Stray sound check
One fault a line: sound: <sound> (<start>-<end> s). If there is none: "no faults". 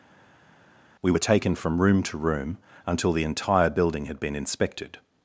no faults